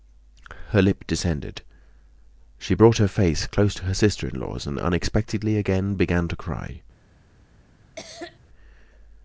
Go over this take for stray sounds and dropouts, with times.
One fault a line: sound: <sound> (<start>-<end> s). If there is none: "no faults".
sound: cough (8.0-8.4 s)